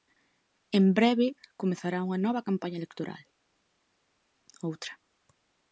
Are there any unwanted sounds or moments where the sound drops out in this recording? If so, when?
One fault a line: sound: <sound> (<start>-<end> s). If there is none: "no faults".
no faults